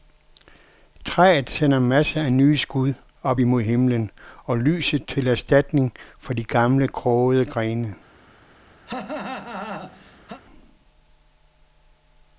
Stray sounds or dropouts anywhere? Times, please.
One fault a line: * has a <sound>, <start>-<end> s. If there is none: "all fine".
* has a cough, 8.9-10.4 s